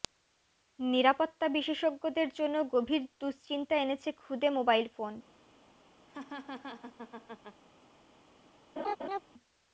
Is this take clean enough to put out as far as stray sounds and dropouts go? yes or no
no